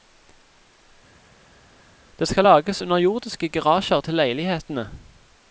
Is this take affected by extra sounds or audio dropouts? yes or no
no